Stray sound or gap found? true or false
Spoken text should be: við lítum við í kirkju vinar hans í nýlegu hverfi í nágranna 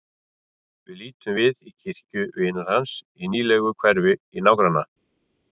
false